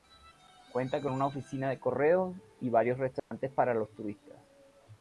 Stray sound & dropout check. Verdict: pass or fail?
fail